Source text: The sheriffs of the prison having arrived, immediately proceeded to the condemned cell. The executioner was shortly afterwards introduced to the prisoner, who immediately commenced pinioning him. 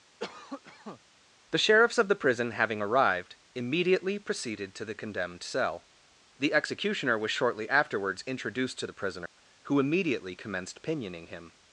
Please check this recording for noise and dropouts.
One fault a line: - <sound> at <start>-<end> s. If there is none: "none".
- cough at 0.2-1.0 s
- dropout at 9.3-9.4 s